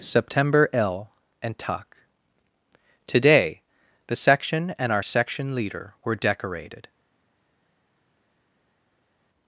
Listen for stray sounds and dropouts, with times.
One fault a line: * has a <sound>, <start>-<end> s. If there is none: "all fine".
all fine